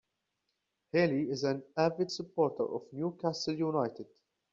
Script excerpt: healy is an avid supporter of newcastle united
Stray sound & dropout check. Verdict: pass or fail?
pass